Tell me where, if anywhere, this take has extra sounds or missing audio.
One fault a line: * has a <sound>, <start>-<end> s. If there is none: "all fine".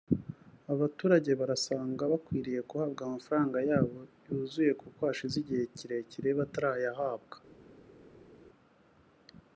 all fine